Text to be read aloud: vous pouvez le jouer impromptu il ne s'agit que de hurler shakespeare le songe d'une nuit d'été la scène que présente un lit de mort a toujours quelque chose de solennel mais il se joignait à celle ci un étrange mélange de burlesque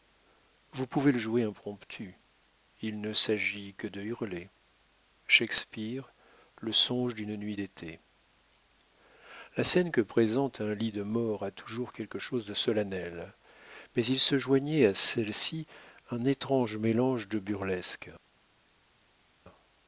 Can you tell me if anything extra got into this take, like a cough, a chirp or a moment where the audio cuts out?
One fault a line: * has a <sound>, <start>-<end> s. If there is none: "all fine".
all fine